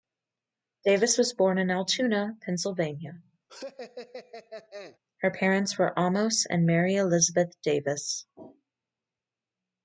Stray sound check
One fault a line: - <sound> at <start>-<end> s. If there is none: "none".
- laugh at 3.5-5.0 s